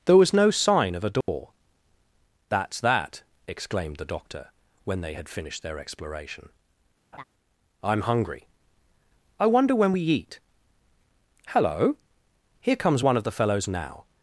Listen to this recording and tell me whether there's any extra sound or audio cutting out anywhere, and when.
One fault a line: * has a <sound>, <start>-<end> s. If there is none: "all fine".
* has a dropout, 1.2-1.3 s
* has a laugh, 7.1-7.2 s